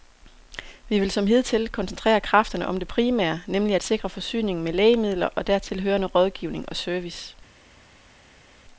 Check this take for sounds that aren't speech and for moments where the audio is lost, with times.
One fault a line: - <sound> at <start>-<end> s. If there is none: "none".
none